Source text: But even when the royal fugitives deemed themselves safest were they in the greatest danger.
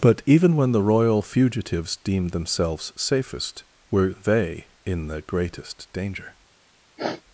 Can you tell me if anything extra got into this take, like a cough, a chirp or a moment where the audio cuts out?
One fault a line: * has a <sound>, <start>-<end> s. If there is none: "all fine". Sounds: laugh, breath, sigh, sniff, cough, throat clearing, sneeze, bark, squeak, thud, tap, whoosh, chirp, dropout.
* has a sniff, 7.0-7.2 s